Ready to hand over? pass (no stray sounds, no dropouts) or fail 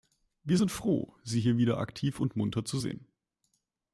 pass